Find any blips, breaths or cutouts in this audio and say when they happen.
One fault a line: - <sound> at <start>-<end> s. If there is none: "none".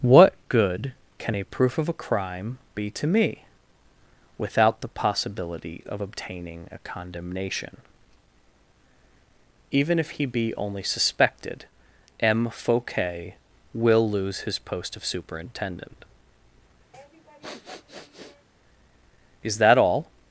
- sniff at 16.9-18.5 s